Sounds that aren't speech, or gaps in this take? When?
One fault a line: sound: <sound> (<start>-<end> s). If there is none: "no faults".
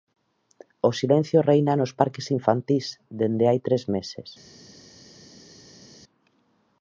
no faults